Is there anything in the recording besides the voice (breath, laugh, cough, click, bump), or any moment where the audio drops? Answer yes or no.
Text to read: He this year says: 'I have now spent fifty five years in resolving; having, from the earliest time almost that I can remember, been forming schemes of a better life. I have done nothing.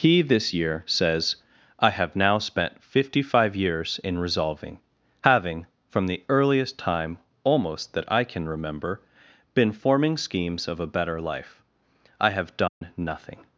yes